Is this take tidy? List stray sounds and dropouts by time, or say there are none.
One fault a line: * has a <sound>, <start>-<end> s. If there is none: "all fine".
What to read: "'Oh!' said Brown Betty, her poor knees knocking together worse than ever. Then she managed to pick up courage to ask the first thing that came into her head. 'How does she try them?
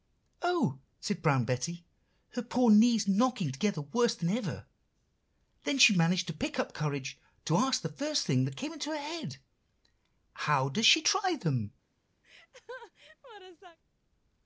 * has a laugh, 12.2-13.8 s